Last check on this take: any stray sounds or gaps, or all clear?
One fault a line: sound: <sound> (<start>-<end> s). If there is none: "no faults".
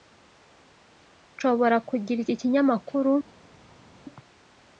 no faults